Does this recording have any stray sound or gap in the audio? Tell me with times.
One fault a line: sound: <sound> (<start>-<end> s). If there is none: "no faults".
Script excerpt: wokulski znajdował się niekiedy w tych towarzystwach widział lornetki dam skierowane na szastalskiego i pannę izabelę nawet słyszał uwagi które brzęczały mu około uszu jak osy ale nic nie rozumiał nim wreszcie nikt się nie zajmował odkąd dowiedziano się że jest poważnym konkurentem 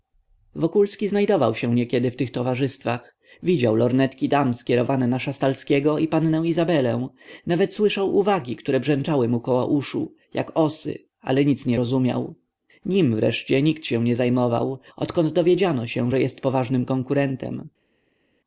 no faults